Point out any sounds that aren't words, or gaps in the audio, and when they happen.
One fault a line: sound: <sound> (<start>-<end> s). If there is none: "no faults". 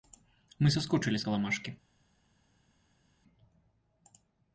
no faults